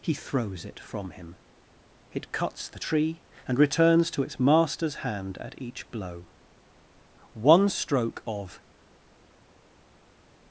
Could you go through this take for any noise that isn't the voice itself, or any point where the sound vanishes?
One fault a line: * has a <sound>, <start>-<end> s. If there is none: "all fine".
all fine